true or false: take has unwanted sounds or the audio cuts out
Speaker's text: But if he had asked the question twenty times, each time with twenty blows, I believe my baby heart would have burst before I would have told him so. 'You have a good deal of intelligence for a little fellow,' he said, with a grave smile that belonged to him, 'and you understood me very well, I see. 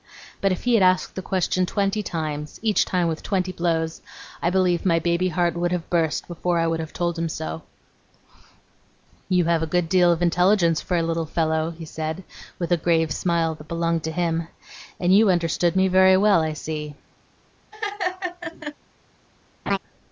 true